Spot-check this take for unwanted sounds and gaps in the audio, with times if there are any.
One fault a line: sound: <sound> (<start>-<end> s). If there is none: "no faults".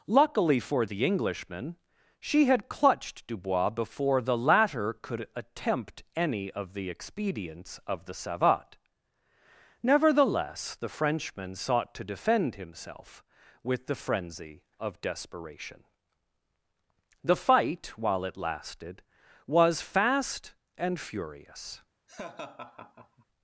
sound: laugh (22.1-23.3 s)